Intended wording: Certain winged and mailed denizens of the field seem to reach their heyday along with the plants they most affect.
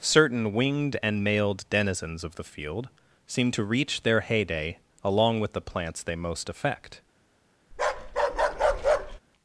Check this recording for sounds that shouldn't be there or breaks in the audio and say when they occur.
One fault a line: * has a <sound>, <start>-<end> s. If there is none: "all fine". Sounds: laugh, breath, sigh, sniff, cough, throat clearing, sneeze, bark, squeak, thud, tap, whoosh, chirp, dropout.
* has a bark, 7.7-9.2 s